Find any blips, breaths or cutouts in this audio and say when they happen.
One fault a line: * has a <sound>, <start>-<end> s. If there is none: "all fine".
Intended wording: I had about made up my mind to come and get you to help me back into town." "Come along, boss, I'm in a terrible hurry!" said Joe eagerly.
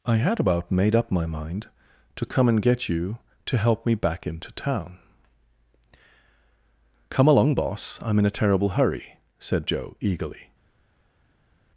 all fine